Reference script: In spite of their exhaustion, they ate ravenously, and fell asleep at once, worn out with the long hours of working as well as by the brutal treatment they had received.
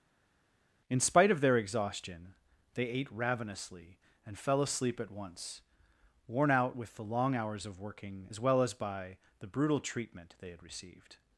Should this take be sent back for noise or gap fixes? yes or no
no